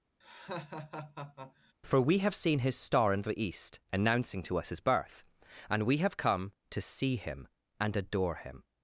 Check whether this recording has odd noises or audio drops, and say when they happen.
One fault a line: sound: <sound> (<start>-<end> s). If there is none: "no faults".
sound: laugh (0.2-1.7 s)